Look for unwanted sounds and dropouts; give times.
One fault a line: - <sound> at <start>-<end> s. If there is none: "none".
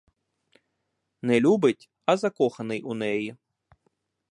none